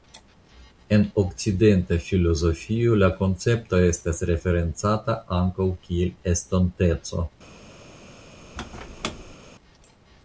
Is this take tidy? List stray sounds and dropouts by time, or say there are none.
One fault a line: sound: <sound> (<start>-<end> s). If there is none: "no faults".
sound: squeak (8.6-9.4 s)